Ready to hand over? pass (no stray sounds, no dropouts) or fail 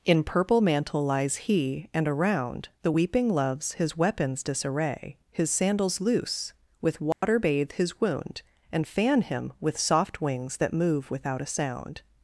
fail